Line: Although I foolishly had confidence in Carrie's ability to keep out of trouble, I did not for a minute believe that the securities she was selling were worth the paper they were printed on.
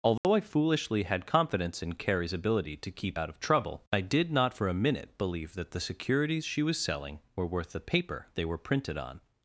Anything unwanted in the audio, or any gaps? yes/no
yes